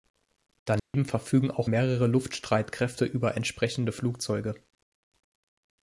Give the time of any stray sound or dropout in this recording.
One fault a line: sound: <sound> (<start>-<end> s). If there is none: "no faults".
sound: dropout (0.8-0.9 s)